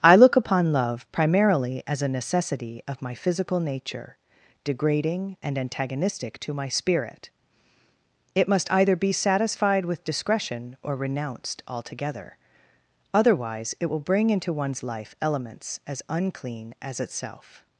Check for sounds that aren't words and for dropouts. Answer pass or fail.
pass